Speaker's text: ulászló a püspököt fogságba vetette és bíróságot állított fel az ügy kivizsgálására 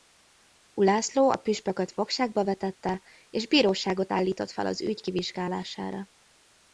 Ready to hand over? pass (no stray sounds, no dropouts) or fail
pass